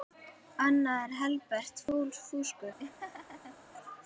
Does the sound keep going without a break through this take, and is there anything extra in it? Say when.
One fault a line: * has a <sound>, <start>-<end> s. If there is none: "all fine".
* has a laugh, 2.8-3.6 s